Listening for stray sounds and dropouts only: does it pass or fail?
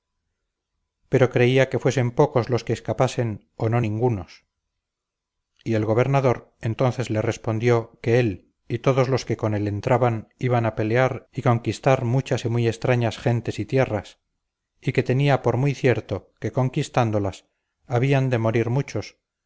pass